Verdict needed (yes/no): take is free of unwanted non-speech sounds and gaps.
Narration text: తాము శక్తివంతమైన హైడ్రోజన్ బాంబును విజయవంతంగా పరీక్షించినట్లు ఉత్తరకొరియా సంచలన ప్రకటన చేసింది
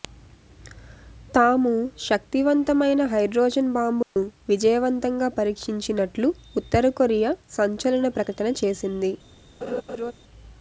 no